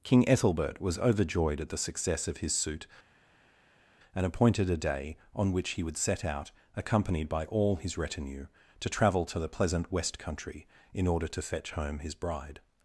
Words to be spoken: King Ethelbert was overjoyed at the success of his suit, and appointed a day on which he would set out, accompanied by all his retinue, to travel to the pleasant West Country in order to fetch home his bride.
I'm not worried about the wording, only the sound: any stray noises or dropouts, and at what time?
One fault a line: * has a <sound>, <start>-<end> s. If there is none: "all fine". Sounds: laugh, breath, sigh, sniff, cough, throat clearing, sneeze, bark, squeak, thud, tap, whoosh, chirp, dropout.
all fine